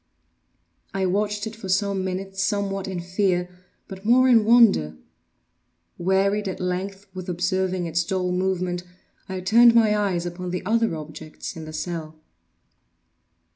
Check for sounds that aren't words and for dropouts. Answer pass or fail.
pass